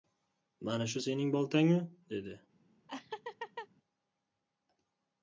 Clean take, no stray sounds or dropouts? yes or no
no